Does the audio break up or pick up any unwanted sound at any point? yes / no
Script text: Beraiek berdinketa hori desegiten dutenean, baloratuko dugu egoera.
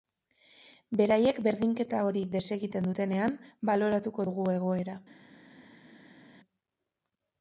no